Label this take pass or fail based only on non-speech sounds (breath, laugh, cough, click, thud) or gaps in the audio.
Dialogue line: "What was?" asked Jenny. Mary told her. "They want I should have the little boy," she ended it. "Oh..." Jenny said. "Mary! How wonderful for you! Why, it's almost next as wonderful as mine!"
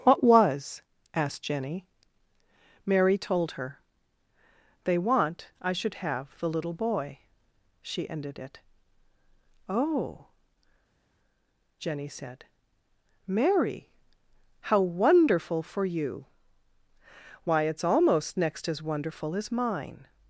pass